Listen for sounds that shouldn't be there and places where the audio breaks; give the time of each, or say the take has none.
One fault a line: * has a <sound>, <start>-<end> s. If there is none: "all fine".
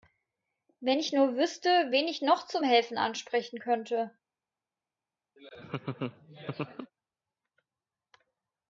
* has a laugh, 5.4-6.9 s